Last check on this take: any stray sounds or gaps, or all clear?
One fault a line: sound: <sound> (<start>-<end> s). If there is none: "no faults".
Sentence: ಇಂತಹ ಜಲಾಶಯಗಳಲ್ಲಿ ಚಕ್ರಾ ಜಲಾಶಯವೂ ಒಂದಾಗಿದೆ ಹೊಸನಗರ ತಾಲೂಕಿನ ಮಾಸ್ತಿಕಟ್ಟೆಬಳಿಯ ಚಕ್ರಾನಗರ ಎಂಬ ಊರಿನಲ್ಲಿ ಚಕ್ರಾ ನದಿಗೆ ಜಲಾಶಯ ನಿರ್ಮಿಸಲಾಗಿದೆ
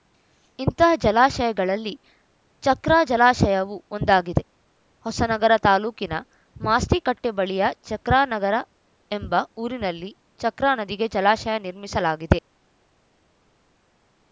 no faults